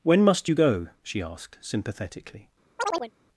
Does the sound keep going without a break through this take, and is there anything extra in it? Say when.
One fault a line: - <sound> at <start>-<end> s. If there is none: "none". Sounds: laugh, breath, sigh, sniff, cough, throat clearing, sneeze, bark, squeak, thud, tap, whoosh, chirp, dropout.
- chirp at 2.8-3.1 s